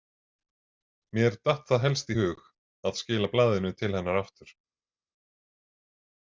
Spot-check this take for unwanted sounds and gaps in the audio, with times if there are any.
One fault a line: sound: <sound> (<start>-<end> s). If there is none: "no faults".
no faults